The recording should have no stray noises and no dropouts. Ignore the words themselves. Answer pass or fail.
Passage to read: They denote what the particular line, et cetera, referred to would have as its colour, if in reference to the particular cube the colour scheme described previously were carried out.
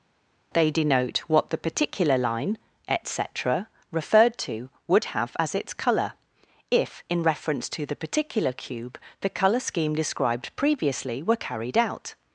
pass